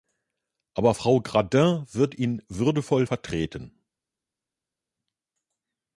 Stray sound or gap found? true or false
false